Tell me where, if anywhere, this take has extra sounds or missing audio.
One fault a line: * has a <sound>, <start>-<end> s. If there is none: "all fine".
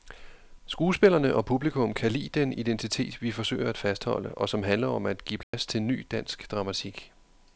* has a dropout, 5.4-5.5 s